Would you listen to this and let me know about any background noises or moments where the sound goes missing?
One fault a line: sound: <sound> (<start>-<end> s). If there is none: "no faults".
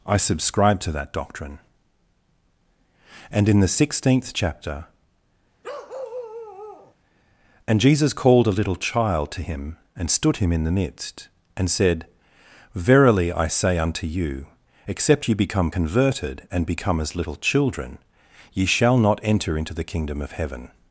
sound: bark (5.6-6.9 s)